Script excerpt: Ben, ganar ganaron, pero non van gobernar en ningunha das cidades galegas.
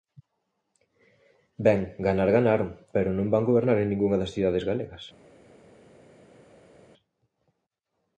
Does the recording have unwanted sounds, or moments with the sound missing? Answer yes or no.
no